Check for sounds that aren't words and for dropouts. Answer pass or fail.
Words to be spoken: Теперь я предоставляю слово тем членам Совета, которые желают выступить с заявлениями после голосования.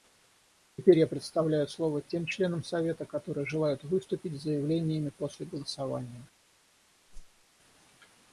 fail